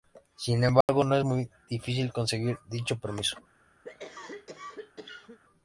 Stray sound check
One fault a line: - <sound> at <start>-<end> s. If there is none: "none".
- dropout at 0.8-0.9 s
- cough at 3.8-5.4 s